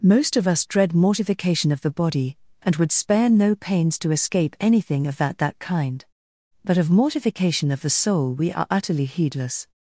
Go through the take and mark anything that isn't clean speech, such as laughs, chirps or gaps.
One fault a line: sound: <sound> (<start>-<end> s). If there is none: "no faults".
no faults